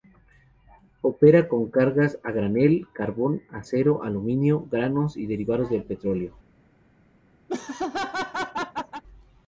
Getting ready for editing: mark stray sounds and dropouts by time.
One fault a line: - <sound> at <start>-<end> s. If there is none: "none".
- laugh at 7.5-9.0 s